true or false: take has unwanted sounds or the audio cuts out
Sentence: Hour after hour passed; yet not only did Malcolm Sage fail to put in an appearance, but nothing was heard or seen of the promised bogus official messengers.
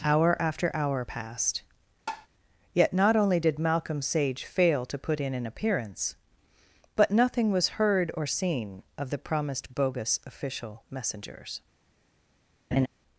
true